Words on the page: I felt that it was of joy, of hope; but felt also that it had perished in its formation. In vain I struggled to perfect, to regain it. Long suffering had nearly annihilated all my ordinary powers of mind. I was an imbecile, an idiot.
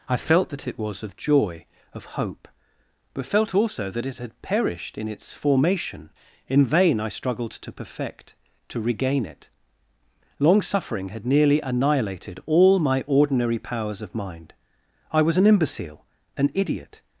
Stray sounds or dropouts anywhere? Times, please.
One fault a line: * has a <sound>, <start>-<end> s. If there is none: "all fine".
all fine